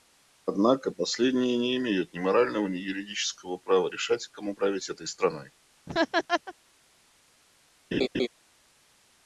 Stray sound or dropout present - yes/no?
yes